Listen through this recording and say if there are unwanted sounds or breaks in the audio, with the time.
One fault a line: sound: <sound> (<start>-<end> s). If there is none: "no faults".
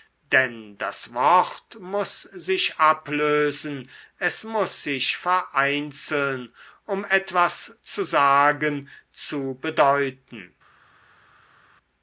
no faults